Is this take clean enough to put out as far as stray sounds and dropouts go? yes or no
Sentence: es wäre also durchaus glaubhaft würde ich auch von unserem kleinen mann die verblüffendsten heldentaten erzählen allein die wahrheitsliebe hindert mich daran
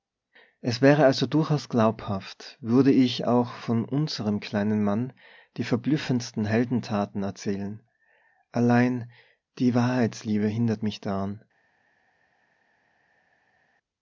yes